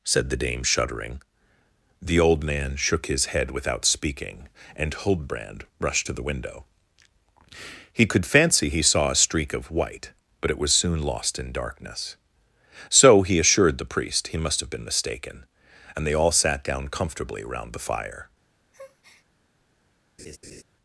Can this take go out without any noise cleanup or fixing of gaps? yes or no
no